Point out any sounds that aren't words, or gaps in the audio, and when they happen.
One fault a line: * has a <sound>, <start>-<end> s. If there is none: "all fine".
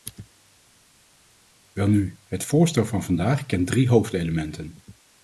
all fine